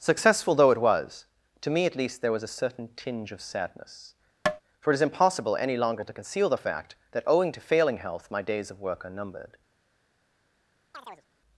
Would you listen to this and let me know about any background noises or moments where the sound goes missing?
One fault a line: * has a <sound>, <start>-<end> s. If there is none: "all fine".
* has a tap, 4.5-4.6 s
* has a chirp, 10.9-11.3 s